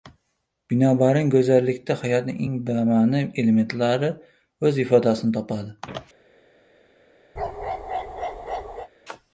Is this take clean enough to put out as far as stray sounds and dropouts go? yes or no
no